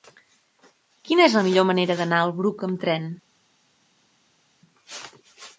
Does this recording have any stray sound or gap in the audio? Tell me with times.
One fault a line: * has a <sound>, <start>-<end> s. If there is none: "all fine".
all fine